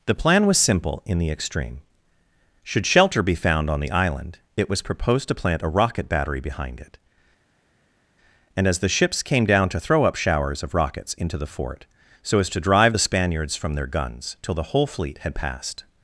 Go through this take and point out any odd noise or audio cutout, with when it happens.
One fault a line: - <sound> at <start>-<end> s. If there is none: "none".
none